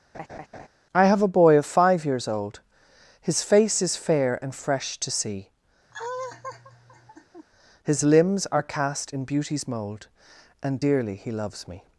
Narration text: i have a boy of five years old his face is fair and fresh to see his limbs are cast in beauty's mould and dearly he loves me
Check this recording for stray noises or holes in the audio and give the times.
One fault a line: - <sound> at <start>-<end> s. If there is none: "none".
- laugh at 0.1-0.7 s
- laugh at 5.9-7.5 s